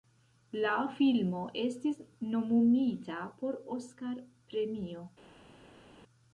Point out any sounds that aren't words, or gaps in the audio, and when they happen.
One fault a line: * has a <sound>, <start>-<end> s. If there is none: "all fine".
all fine